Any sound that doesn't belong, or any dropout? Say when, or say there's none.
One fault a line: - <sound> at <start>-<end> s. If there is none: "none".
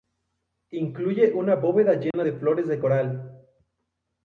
- dropout at 2.1-2.1 s